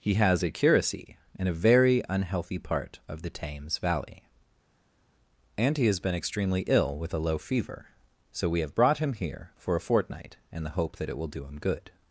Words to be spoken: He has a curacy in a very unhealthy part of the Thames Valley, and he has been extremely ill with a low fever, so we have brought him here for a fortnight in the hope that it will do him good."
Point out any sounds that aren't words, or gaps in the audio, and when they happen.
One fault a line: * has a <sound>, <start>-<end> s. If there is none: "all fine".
all fine